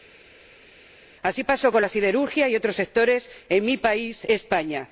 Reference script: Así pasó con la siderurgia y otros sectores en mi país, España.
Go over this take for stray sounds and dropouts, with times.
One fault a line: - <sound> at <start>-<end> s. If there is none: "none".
none